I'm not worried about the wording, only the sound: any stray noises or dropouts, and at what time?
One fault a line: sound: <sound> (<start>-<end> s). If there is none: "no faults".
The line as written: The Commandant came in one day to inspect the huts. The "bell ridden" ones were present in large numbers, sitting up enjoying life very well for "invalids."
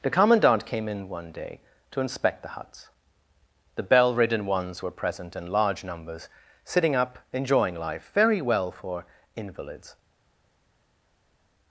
no faults